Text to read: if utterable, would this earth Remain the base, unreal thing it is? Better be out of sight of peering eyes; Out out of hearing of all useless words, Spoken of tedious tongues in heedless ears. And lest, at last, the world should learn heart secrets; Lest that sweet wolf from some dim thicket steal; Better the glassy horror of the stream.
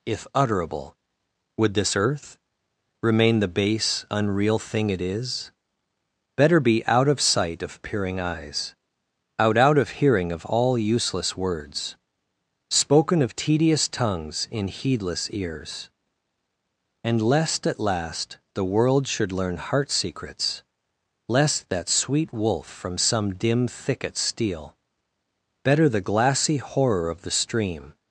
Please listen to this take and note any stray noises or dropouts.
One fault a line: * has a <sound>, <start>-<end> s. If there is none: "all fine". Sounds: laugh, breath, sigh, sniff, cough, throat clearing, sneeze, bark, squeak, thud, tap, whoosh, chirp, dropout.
all fine